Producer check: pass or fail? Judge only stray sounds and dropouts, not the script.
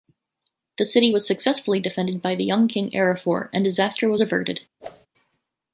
fail